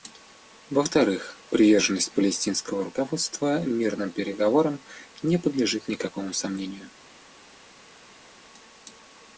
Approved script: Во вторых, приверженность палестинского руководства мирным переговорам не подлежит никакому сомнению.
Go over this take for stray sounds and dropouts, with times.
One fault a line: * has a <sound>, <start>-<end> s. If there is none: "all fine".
all fine